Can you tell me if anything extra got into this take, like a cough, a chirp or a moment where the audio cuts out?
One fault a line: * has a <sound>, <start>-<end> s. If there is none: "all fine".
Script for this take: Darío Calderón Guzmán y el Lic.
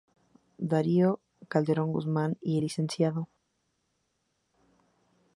all fine